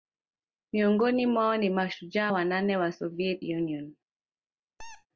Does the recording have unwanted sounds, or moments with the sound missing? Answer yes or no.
yes